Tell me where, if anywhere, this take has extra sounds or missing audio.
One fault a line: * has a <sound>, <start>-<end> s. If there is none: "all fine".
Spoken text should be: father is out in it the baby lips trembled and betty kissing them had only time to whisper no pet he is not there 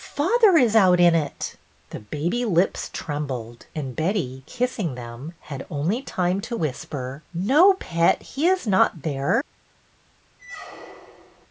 * has a squeak, 10.4-11.5 s